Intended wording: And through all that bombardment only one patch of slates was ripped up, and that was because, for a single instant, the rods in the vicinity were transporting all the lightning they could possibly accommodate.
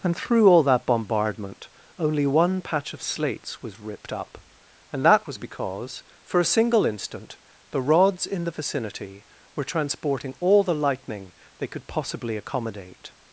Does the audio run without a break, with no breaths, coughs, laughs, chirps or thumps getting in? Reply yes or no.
yes